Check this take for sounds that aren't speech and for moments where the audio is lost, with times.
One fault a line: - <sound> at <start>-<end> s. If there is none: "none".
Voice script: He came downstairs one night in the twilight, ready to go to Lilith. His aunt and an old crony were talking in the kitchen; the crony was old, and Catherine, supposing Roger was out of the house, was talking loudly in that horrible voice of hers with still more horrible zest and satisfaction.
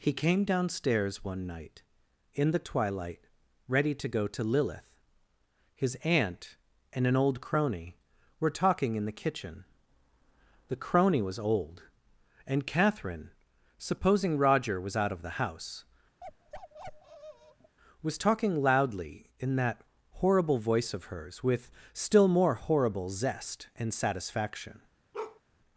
- bark at 16.2-17.8 s
- bark at 25.1-25.4 s